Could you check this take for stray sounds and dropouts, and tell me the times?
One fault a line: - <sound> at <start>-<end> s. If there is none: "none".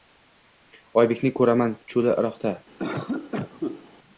- cough at 2.8-3.9 s